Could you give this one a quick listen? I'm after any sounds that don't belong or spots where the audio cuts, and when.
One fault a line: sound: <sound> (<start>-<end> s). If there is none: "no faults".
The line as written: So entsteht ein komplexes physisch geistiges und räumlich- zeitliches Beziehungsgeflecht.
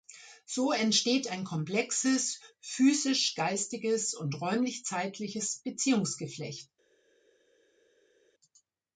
no faults